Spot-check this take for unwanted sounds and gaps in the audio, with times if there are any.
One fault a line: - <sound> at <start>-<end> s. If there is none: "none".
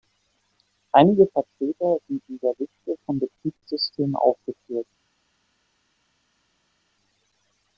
none